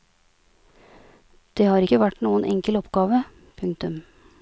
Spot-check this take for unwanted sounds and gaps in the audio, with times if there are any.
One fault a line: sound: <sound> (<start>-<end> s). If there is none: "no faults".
no faults